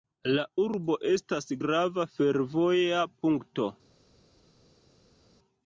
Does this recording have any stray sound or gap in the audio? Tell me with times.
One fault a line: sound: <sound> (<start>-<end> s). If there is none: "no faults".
no faults